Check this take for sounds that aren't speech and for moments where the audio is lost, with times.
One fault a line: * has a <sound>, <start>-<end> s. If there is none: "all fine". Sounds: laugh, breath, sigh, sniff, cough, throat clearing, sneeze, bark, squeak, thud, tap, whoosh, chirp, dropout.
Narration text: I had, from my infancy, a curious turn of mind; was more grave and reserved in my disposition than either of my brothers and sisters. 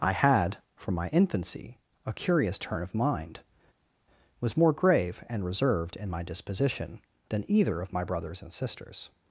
all fine